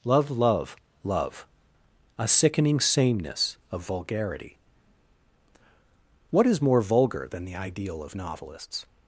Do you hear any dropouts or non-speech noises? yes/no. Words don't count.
no